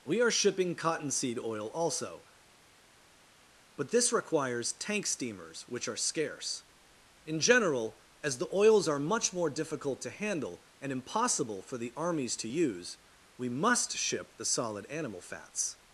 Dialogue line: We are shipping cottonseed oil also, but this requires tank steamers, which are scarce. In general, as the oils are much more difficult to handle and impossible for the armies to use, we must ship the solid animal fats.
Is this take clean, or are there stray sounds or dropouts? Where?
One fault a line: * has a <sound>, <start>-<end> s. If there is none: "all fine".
all fine